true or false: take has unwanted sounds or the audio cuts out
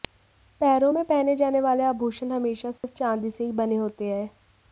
true